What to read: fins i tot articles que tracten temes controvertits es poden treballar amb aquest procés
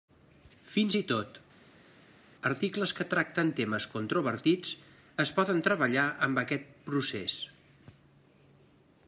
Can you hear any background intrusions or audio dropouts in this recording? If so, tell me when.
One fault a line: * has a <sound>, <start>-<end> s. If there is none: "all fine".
all fine